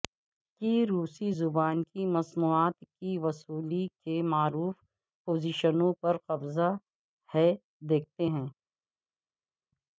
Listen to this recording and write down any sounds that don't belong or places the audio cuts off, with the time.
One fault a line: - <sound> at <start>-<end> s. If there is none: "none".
none